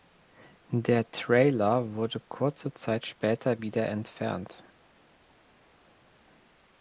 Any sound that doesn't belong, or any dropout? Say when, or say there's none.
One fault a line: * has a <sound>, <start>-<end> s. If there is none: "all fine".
all fine